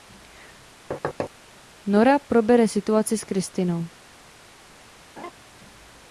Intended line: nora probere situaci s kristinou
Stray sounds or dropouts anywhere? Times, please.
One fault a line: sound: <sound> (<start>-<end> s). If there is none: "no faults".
sound: thud (0.9-1.3 s)
sound: laugh (5.2-5.3 s)